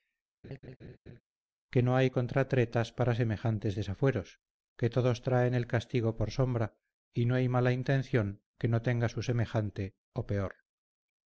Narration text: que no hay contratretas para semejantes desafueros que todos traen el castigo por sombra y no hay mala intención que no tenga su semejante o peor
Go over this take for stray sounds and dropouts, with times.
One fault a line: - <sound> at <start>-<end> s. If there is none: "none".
- laugh at 0.4-1.2 s